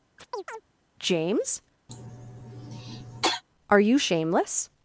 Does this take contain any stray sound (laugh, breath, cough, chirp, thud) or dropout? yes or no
yes